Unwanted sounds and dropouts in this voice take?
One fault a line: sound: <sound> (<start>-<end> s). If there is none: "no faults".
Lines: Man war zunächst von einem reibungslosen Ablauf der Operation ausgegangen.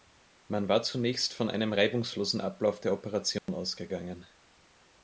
sound: dropout (3.4-3.5 s)